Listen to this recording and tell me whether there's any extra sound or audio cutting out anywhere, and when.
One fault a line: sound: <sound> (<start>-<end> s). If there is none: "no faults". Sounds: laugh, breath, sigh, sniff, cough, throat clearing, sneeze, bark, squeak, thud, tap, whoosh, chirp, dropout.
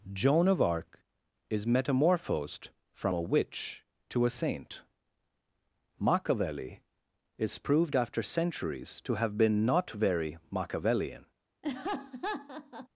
sound: laugh (11.6-12.9 s)